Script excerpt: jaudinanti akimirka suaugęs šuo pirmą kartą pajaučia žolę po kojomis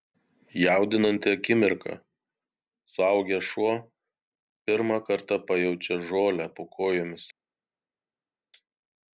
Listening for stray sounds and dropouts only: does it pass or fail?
pass